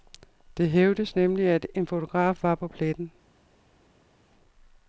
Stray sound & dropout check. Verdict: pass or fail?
pass